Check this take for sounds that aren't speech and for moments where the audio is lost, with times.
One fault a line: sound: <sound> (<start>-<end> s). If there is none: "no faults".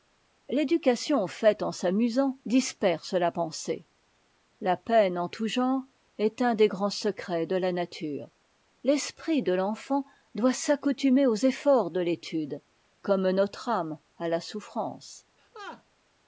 sound: laugh (15.4-15.8 s)